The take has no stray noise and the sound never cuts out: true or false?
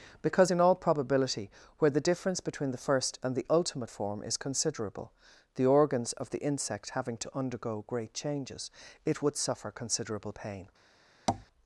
false